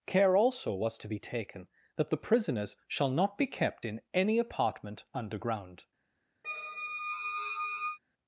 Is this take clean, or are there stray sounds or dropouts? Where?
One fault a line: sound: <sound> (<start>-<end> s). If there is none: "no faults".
sound: squeak (6.4-8.0 s)